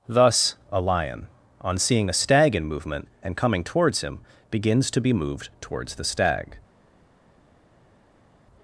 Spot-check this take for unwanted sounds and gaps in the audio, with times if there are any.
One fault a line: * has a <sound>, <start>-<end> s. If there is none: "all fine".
all fine